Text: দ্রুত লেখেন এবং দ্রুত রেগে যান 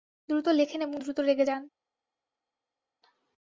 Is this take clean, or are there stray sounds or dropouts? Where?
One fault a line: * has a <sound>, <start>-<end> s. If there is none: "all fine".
all fine